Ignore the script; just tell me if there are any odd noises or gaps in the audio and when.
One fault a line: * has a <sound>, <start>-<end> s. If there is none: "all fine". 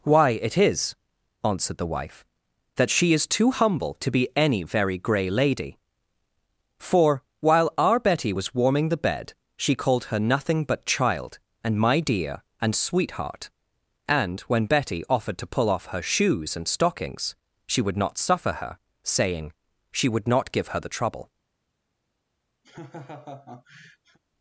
* has a laugh, 22.6-24.2 s